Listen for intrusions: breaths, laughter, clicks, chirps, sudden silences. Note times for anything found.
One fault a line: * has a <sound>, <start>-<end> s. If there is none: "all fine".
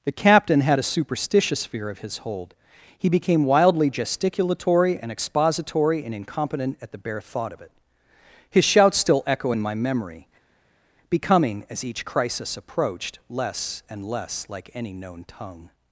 all fine